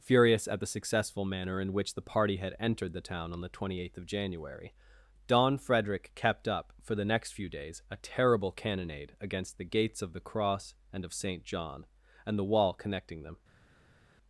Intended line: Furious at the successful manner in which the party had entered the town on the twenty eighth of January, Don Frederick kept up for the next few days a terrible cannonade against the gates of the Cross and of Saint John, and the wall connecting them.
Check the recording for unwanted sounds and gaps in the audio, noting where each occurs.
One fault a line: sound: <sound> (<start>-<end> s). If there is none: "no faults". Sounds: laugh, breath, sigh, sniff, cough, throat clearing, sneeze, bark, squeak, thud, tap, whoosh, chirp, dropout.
no faults